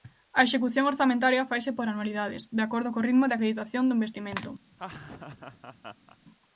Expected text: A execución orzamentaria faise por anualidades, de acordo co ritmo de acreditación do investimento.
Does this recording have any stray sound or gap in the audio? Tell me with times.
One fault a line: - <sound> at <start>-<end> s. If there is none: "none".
- laugh at 4.7-6.2 s